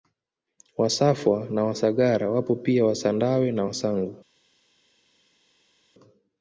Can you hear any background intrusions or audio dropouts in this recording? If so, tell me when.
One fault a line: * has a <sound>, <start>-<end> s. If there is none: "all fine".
all fine